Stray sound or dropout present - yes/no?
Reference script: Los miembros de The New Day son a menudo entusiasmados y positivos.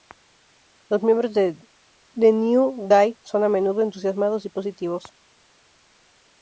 no